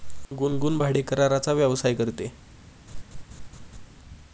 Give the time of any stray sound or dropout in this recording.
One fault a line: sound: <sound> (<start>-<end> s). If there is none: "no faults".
sound: laugh (2.9-3.9 s)